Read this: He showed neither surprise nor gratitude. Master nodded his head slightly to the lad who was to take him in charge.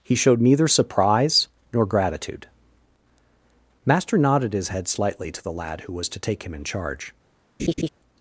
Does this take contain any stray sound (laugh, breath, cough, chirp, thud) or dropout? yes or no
yes